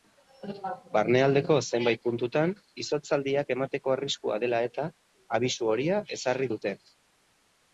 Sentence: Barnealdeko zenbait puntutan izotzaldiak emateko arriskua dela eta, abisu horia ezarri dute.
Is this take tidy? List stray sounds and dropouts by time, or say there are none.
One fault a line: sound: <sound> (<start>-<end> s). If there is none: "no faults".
no faults